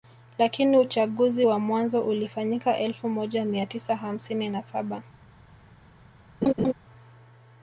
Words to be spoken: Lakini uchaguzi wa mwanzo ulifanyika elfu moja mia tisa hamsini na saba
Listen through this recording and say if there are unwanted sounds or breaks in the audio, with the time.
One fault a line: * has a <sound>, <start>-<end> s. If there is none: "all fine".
* has a laugh, 6.4-6.7 s